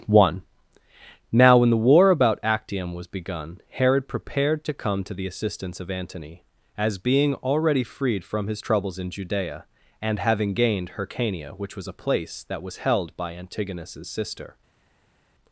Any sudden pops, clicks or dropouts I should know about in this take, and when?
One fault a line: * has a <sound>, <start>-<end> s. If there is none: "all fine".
all fine